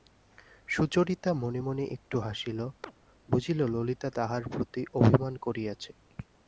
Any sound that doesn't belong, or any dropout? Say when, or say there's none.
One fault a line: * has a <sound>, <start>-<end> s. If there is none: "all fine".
* has a chirp, 2.8-2.9 s